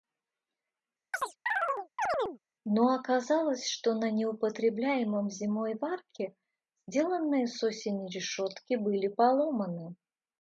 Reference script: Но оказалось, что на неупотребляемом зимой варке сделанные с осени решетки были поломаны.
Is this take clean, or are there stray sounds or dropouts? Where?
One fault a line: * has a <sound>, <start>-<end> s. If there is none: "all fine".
* has a chirp, 1.1-2.4 s